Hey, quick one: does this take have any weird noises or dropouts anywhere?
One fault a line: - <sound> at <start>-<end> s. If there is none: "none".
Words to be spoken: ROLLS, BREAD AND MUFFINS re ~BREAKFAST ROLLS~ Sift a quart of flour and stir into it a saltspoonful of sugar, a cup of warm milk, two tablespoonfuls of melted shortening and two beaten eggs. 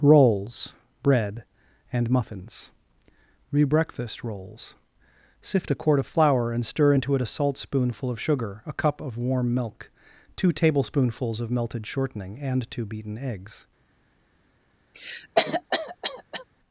- cough at 14.9-16.4 s